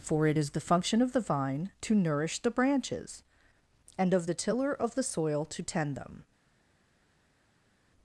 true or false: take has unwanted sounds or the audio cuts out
false